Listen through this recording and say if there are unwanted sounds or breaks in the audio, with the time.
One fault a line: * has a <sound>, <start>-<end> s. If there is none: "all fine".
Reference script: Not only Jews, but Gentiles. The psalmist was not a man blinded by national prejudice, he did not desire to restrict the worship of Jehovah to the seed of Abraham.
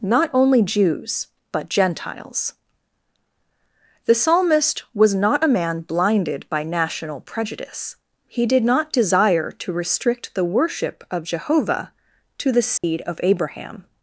* has a dropout, 12.8-12.8 s